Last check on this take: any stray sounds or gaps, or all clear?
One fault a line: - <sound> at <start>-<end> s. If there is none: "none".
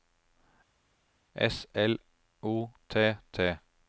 none